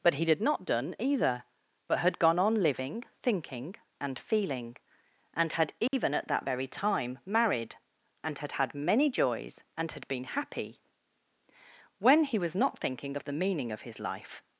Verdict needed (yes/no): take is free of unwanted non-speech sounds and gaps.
no